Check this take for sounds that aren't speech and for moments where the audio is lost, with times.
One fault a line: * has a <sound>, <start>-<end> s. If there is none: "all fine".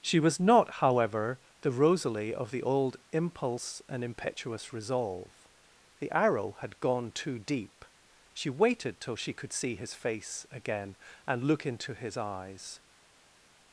all fine